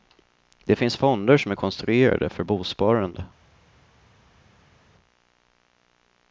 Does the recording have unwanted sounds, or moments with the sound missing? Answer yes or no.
no